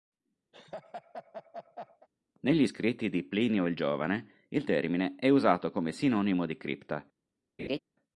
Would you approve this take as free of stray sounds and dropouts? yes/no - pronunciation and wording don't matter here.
no